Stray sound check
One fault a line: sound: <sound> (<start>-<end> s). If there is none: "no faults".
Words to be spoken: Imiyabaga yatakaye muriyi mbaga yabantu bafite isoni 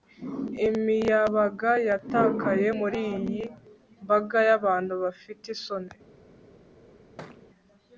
sound: thud (7.2-7.5 s)